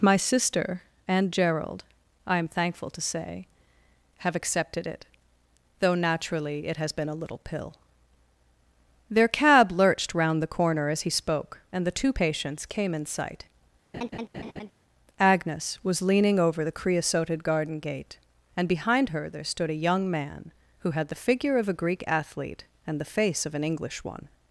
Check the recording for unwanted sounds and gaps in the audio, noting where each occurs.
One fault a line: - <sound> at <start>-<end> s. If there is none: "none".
- laugh at 13.9-14.7 s